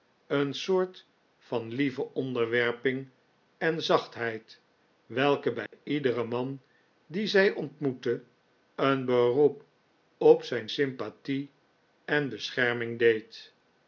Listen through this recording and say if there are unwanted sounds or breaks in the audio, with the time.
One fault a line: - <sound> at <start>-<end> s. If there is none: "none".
- dropout at 5.7-5.7 s